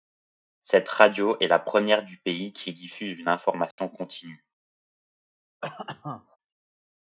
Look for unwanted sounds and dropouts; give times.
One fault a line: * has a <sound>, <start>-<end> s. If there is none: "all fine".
* has a dropout, 3.7-3.8 s
* has a cough, 5.6-6.4 s